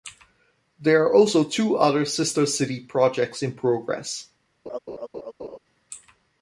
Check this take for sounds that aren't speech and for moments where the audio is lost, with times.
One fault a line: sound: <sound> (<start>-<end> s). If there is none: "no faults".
sound: laugh (4.7-5.6 s)